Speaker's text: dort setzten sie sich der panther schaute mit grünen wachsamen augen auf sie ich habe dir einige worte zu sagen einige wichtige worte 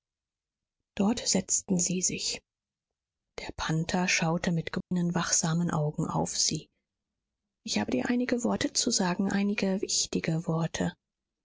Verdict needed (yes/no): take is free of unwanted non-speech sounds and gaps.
no